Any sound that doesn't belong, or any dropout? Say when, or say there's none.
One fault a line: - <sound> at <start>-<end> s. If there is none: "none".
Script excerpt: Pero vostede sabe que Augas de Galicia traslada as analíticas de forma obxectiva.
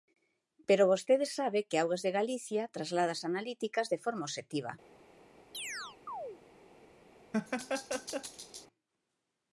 - chirp at 5.5-6.4 s
- laugh at 7.3-8.7 s